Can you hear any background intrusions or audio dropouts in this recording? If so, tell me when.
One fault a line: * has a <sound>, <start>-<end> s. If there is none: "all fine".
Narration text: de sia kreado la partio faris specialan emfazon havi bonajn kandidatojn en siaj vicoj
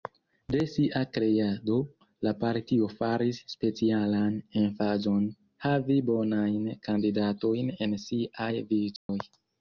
* has a dropout, 9.0-9.1 s